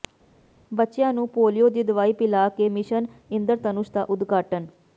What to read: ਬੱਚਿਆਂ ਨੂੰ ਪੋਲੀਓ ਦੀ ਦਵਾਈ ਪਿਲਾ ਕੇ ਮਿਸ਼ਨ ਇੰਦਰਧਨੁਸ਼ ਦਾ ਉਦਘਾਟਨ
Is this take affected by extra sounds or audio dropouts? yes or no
no